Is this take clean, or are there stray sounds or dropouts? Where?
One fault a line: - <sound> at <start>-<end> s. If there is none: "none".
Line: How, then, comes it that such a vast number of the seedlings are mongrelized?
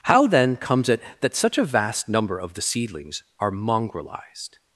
none